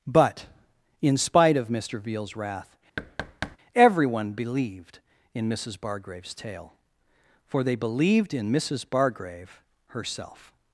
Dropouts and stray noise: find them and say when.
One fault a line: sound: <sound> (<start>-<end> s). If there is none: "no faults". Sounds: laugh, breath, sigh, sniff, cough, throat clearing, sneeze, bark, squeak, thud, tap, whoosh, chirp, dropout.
sound: thud (3.0-3.6 s)